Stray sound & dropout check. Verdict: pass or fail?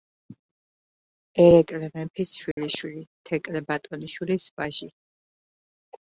fail